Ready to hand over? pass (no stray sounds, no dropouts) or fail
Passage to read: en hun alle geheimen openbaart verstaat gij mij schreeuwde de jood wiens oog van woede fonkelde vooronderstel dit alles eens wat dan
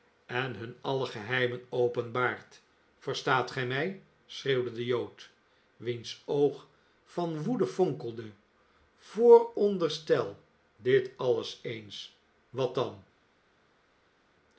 pass